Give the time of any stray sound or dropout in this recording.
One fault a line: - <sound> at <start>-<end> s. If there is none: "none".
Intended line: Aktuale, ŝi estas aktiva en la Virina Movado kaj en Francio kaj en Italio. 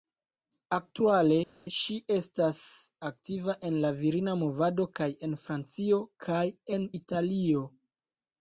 none